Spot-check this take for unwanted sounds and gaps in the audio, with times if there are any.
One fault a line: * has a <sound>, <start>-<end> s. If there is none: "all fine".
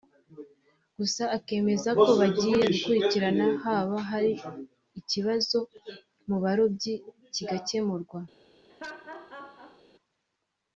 * has a laugh, 8.7-9.8 s